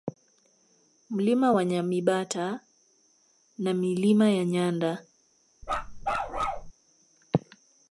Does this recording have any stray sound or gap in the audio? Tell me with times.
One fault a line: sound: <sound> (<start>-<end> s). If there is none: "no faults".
sound: bark (5.6-6.7 s)